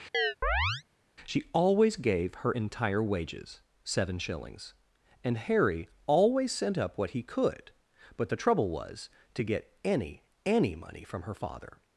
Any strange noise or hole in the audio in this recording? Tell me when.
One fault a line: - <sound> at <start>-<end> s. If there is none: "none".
- chirp at 0.1-0.8 s